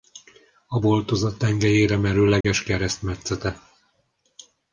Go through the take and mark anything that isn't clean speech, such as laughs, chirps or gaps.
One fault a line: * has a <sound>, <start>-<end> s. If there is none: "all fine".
* has a dropout, 2.4-2.4 s